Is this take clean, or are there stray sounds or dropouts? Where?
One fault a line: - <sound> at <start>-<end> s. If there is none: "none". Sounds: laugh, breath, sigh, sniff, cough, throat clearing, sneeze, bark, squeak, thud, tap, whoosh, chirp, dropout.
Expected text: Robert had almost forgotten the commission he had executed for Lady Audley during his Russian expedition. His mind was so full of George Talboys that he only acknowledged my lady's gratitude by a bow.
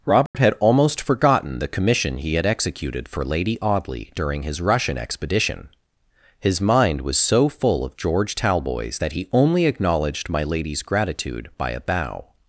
- dropout at 0.3-0.3 s